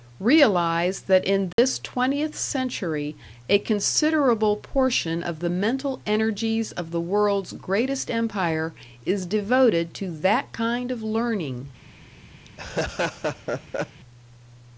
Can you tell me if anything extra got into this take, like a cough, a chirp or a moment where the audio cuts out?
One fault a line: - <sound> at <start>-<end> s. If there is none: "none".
- dropout at 1.5-1.6 s
- laugh at 12.5-14.0 s